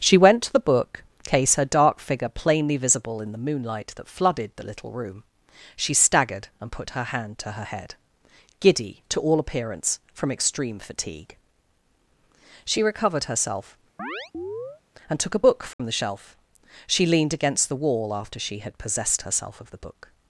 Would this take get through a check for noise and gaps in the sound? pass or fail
fail